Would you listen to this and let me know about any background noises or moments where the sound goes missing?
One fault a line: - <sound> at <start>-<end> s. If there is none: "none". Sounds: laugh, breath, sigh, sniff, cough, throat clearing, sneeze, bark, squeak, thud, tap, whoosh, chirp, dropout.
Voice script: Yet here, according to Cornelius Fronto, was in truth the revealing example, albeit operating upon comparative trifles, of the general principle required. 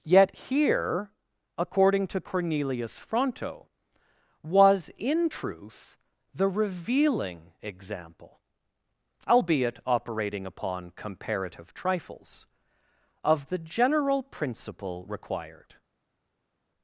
none